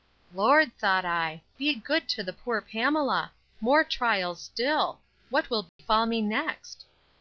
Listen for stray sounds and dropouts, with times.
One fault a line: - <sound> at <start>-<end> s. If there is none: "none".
- dropout at 5.7-5.8 s